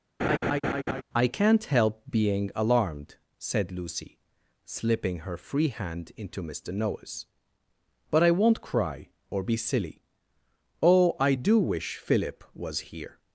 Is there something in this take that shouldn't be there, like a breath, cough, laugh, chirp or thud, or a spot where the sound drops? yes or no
yes